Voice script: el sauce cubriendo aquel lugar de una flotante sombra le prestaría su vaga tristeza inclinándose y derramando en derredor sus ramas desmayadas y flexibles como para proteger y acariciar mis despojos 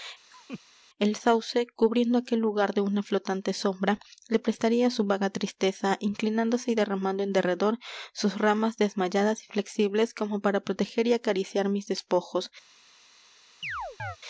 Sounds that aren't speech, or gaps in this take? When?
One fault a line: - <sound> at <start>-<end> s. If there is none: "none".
- laugh at 0.3-0.6 s
- chirp at 13.6-14.2 s